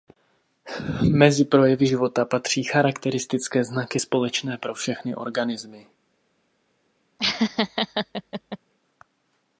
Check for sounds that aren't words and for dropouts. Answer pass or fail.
fail